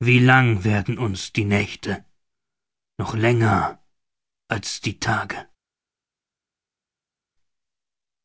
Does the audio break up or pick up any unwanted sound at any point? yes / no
no